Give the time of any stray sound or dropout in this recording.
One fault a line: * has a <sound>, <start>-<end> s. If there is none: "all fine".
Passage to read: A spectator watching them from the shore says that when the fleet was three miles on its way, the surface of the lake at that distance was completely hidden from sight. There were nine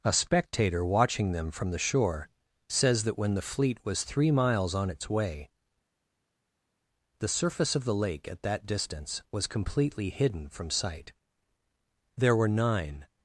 all fine